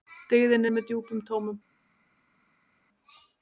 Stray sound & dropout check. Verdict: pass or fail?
pass